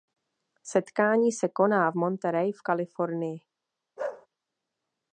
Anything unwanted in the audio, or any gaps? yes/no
yes